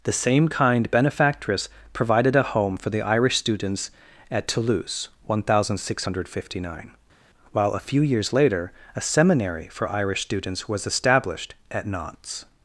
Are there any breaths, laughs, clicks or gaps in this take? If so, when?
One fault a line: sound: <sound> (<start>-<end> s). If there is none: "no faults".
no faults